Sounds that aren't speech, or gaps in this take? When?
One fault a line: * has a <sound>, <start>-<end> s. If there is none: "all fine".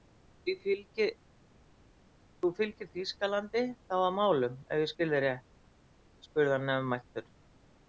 all fine